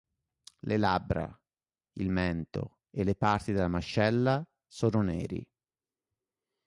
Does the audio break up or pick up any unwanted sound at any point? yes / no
no